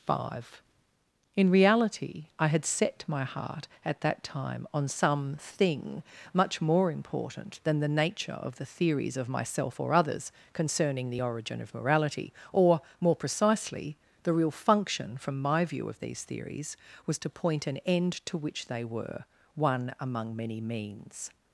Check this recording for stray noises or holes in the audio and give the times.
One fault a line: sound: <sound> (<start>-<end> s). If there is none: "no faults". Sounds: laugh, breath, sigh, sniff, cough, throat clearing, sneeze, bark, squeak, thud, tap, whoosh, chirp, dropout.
no faults